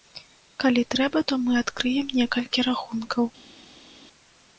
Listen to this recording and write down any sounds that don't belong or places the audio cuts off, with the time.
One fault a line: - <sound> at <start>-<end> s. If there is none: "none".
none